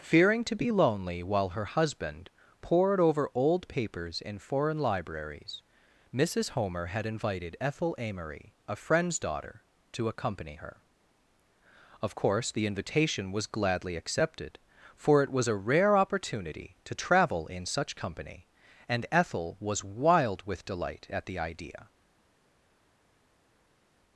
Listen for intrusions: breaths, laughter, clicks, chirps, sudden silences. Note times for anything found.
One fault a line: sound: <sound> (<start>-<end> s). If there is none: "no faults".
no faults